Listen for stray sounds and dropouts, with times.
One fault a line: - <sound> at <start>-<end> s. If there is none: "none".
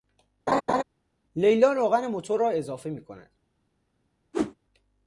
- laugh at 0.5-0.8 s
- whoosh at 4.3-4.6 s